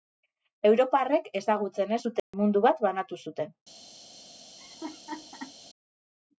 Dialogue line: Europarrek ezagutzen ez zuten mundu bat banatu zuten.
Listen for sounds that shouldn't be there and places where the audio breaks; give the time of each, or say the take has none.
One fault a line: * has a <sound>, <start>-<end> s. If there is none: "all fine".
* has a dropout, 2.2-2.3 s
* has a laugh, 4.6-5.6 s